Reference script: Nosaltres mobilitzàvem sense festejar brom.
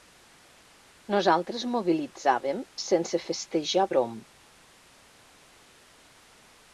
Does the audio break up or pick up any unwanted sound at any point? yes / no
no